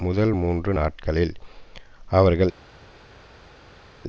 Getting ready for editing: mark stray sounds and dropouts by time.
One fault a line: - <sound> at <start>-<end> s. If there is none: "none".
none